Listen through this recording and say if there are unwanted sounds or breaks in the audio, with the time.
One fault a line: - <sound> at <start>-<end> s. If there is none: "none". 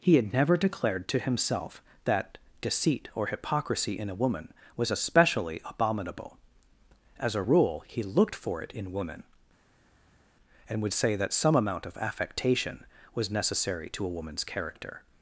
none